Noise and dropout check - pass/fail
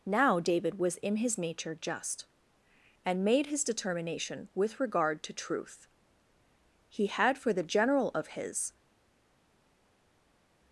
pass